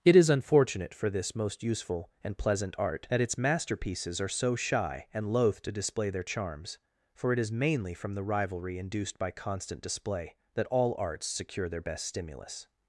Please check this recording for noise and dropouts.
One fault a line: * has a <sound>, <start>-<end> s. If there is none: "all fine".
all fine